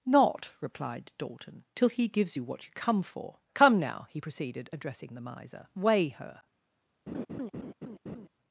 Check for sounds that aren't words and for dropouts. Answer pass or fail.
fail